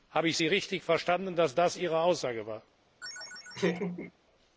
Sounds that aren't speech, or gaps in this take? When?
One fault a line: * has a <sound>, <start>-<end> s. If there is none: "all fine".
* has a laugh, 3.0-4.1 s